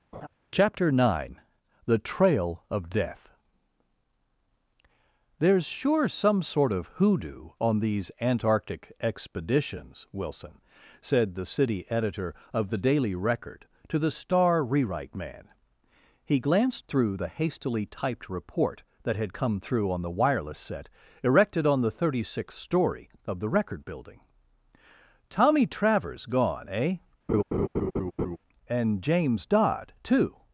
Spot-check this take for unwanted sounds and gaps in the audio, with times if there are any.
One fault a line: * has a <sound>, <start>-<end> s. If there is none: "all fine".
* has a laugh, 0.1-0.3 s
* has a laugh, 27.3-28.4 s